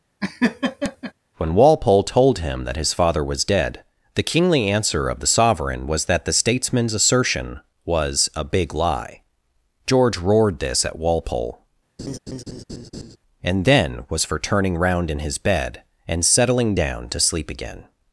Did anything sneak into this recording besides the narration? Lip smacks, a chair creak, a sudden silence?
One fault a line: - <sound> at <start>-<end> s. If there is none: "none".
- laugh at 0.2-1.1 s
- laugh at 12.0-13.2 s